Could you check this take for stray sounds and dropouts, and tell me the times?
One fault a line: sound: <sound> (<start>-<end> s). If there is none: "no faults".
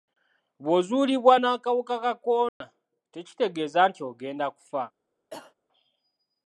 sound: dropout (2.5-2.6 s)
sound: cough (5.3-5.5 s)